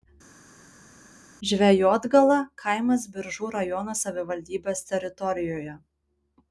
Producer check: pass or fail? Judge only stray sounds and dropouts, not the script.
pass